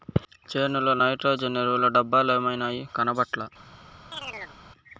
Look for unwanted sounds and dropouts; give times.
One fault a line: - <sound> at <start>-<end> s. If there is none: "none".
- chirp at 4.1-4.6 s